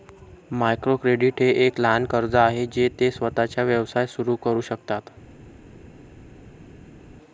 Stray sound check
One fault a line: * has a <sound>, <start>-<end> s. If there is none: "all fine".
all fine